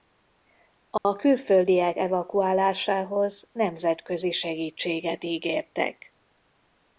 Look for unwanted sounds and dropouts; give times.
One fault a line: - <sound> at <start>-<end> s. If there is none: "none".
- dropout at 1.0-1.0 s